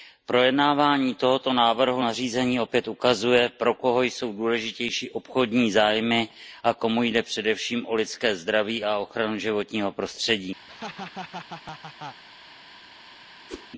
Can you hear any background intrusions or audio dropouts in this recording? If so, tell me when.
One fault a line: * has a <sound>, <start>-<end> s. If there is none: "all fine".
* has a laugh, 10.7-12.2 s
* has a whoosh, 13.5-13.7 s